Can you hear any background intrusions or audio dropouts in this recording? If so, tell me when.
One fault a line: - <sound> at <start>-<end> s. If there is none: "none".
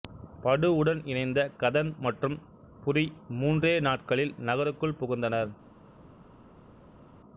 none